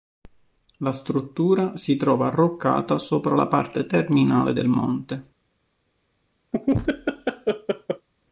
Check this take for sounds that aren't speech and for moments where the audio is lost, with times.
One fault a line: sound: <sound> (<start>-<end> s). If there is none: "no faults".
sound: laugh (6.5-8.1 s)